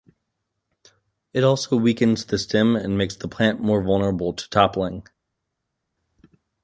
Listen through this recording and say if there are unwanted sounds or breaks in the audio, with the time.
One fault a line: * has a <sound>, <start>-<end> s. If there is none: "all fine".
all fine